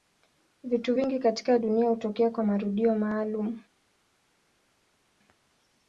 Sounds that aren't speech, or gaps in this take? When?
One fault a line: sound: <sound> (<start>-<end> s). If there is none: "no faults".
no faults